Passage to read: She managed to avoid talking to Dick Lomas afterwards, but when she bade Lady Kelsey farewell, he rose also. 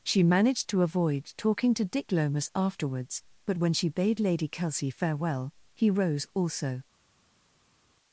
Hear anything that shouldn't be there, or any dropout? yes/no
no